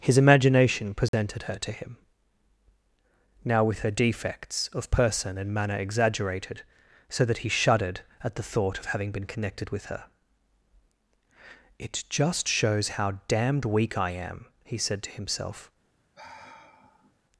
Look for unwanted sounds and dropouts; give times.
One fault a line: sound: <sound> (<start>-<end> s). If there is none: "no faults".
sound: dropout (1.1-1.1 s)
sound: sigh (16.1-17.1 s)